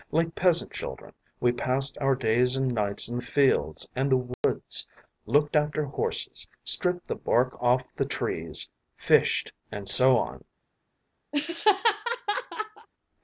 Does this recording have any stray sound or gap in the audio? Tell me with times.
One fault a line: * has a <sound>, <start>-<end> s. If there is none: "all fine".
* has a dropout, 4.3-4.4 s
* has a laugh, 11.3-12.9 s